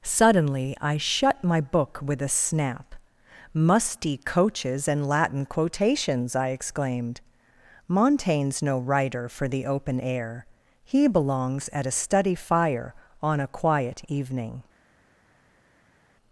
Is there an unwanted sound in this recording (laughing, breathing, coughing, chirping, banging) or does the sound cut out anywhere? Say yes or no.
no